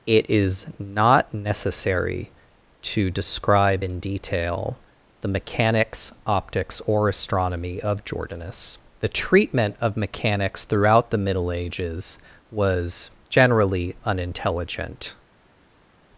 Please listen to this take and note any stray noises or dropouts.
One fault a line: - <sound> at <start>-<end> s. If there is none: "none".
none